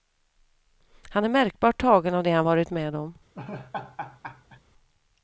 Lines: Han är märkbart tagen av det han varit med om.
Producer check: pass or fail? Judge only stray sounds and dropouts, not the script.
fail